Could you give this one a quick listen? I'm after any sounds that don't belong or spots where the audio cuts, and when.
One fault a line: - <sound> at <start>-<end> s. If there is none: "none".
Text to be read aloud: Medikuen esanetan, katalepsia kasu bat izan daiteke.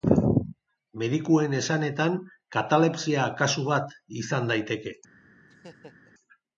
- laugh at 5.5-6.1 s